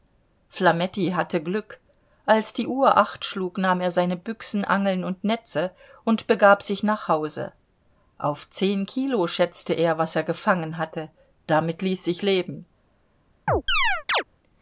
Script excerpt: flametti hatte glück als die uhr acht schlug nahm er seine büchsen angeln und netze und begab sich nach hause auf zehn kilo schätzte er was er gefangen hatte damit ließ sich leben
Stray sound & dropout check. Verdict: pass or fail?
fail